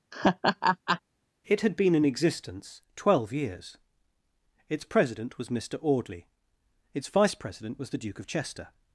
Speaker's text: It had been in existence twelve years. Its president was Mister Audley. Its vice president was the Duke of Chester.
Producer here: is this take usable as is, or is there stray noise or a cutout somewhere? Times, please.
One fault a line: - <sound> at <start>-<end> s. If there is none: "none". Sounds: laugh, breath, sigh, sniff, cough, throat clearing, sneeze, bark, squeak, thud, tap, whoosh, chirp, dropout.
- laugh at 0.1-1.0 s